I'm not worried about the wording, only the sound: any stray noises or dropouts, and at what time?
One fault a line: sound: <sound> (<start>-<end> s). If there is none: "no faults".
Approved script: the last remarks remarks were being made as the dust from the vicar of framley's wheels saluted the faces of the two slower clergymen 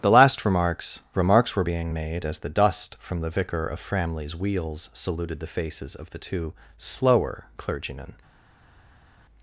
no faults